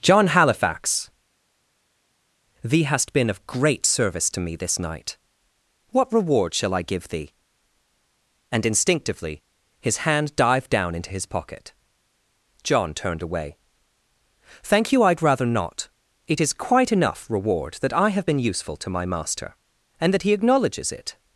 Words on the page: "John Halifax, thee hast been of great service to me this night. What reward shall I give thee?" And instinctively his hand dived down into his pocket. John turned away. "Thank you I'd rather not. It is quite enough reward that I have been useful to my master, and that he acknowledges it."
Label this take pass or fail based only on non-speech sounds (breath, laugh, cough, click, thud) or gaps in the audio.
pass